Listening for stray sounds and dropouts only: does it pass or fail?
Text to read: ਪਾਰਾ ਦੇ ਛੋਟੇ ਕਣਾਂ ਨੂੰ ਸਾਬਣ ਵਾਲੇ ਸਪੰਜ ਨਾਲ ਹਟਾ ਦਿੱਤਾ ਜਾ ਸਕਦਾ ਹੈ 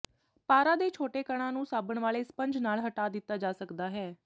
pass